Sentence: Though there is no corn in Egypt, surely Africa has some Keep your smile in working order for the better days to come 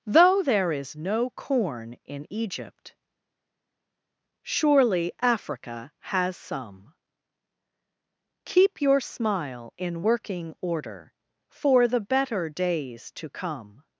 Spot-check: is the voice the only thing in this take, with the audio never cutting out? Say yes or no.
yes